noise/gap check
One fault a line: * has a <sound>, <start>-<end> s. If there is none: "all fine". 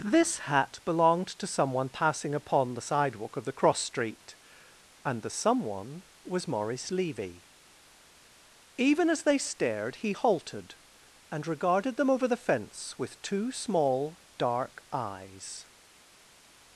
all fine